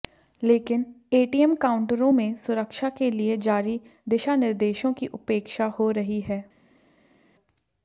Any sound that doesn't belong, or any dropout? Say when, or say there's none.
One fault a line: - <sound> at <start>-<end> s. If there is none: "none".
none